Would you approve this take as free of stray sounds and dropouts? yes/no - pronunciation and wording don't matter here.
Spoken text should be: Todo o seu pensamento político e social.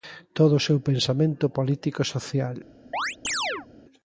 no